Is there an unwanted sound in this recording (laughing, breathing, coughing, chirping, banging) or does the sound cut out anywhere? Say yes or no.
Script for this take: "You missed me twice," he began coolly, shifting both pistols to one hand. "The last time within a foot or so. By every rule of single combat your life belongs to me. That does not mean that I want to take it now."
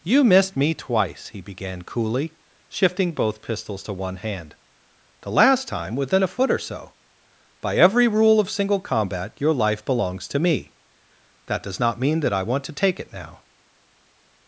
no